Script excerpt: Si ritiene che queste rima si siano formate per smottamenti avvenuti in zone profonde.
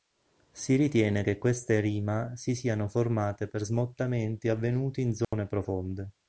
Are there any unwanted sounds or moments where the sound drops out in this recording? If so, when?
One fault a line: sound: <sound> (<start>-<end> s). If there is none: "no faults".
sound: dropout (5.2-5.3 s)